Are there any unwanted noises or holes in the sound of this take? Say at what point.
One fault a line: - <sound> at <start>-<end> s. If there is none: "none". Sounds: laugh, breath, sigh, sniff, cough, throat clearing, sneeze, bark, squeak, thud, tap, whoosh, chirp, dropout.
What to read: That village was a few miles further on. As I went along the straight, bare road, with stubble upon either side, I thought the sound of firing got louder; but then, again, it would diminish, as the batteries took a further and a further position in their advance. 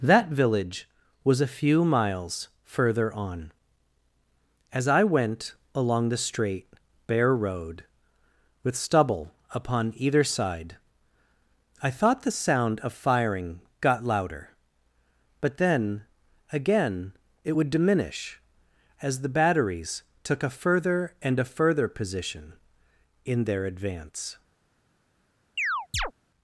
- chirp at 25.6-26.1 s